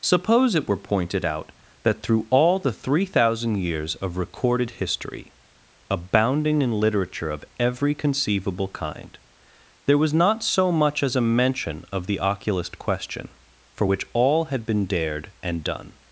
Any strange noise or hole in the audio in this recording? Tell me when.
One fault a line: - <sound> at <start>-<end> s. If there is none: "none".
none